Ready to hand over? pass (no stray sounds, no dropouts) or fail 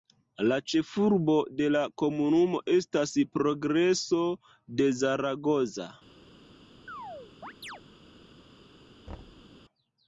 fail